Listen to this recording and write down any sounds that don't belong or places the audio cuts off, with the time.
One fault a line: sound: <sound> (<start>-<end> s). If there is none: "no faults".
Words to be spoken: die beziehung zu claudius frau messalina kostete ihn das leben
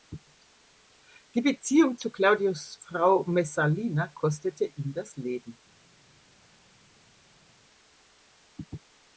no faults